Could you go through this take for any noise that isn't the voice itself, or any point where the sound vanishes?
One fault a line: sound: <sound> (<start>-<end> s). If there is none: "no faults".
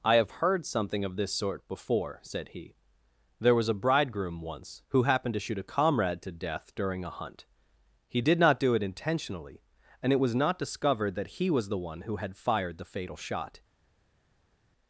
no faults